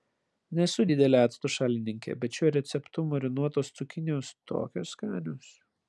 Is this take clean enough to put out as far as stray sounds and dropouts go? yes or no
yes